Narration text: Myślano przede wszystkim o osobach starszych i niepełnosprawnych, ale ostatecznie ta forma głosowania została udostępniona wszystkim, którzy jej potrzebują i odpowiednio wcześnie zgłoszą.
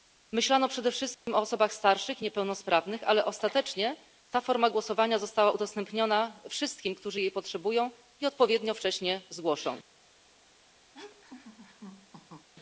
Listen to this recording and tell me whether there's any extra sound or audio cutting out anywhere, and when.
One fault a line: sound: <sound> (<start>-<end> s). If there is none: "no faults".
sound: dropout (1.1-1.3 s)
sound: laugh (10.9-12.5 s)